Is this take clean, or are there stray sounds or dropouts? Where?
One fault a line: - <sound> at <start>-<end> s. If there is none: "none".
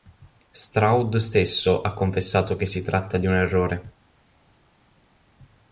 none